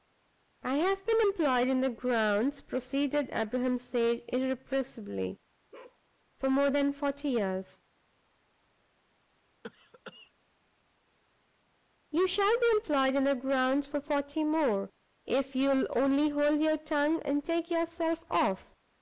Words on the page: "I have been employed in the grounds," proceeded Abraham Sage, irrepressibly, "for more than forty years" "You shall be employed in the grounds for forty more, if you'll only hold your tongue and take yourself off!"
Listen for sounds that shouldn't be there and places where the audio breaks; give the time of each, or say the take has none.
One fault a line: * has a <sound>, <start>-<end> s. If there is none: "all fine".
* has a bark, 5.7-6.0 s
* has a cough, 9.6-10.3 s